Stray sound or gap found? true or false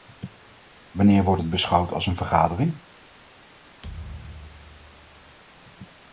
true